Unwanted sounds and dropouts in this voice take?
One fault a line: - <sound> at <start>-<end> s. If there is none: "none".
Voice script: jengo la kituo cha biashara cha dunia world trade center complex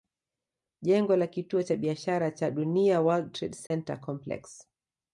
- dropout at 3.7-3.7 s